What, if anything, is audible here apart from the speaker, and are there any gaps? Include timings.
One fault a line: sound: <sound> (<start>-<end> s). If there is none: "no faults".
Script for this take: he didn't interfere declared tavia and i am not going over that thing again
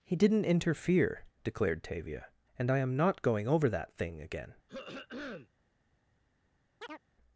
sound: throat clearing (4.7-5.5 s)
sound: chirp (6.8-7.0 s)